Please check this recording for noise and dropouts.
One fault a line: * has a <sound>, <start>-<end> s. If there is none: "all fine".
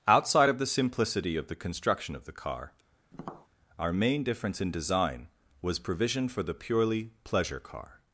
* has a tap, 3.1-3.5 s